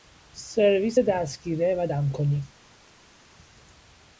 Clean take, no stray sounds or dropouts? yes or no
yes